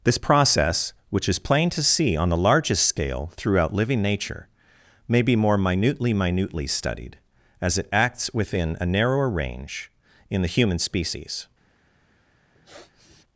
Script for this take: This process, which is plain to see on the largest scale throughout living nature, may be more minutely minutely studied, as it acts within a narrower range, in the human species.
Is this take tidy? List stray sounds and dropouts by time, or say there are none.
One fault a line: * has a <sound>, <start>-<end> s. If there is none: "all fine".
* has a sniff, 12.5-13.2 s